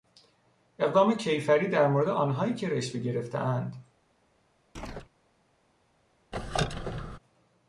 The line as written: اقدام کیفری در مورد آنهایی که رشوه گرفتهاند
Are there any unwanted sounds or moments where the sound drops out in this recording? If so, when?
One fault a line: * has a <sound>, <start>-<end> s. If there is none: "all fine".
* has a chirp, 4.8-5.1 s
* has a squeak, 6.3-7.2 s